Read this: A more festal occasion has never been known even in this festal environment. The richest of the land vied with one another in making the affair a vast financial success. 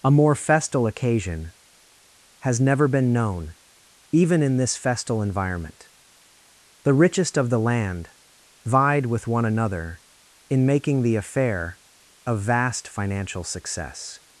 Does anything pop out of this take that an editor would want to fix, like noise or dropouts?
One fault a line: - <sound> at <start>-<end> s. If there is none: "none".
none